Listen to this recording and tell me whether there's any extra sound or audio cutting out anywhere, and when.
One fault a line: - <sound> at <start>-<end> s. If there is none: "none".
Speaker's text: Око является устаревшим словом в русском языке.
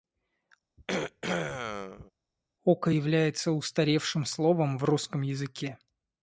- throat clearing at 0.8-2.1 s